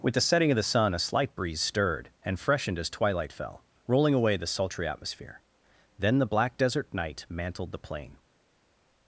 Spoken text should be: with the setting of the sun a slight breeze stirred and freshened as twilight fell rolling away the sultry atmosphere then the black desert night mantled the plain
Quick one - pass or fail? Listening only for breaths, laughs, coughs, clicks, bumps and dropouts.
pass